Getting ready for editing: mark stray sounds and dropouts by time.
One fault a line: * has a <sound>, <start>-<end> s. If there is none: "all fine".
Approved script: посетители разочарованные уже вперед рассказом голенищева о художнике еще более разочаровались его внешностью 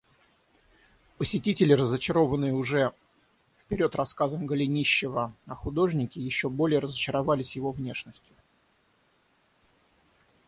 all fine